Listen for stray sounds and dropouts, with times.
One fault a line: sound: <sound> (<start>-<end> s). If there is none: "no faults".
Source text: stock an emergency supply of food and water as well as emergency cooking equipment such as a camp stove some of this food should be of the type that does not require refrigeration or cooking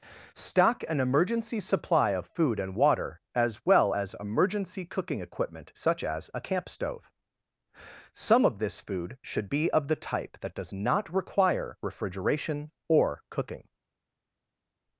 no faults